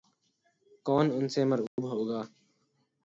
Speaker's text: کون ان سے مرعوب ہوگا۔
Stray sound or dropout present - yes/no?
yes